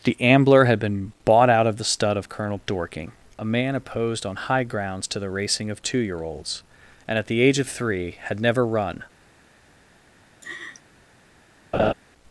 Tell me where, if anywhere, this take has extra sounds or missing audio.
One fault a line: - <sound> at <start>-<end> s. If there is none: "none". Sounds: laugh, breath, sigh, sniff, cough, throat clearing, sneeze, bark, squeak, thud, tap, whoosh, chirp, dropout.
- laugh at 10.4-10.8 s
- laugh at 11.7-11.9 s